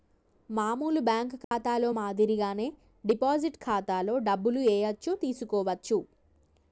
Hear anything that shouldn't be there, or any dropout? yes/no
yes